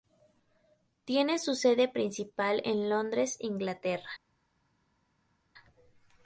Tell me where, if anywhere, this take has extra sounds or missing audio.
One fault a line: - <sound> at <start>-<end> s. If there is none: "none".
none